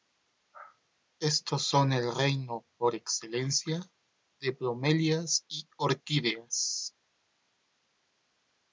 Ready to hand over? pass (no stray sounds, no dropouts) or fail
pass